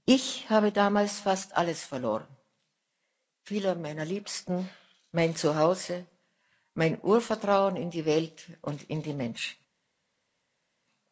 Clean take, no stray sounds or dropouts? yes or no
yes